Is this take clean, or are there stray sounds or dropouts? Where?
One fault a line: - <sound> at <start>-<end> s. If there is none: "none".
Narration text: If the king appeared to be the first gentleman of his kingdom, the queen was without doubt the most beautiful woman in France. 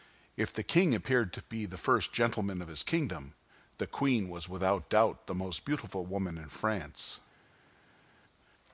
none